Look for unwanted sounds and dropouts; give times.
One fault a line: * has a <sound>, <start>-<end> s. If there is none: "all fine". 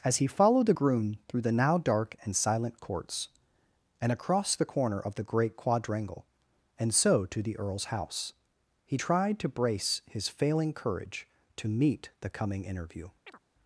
* has a chirp, 13.3-13.4 s